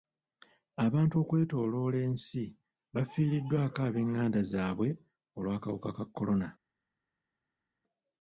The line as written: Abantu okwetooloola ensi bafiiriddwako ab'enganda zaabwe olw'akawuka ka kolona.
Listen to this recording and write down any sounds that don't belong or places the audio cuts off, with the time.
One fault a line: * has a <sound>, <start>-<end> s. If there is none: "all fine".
all fine